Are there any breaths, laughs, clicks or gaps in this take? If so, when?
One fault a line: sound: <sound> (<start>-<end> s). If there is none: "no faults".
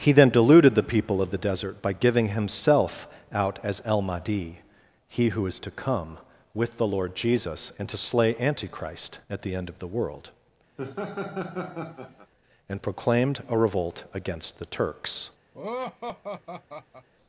sound: laugh (10.8-12.3 s)
sound: laugh (15.5-17.1 s)